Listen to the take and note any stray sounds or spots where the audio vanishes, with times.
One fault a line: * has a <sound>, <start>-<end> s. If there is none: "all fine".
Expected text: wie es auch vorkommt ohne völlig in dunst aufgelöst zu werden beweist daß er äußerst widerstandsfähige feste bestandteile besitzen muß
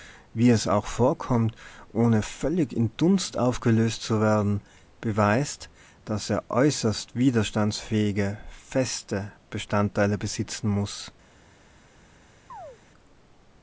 * has a chirp, 12.5-12.8 s